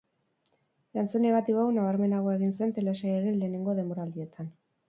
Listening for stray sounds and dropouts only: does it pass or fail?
pass